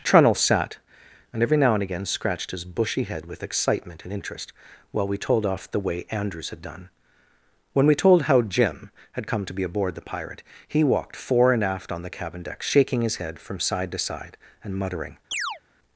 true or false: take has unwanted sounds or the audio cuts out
true